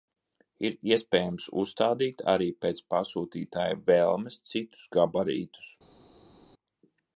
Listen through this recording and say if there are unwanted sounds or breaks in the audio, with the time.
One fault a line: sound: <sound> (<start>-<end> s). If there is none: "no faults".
no faults